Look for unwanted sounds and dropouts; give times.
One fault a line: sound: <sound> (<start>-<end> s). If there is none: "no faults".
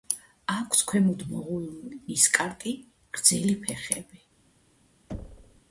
sound: thud (5.1-5.6 s)